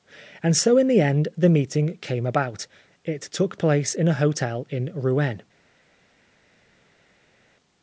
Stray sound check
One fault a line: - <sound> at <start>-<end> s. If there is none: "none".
none